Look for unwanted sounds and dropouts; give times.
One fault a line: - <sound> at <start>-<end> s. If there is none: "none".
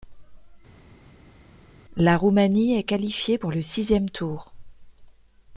none